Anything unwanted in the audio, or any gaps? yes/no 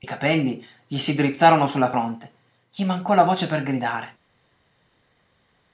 no